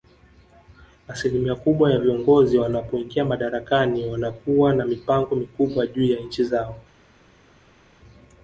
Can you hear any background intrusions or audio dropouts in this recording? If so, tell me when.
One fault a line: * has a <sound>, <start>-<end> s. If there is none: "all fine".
all fine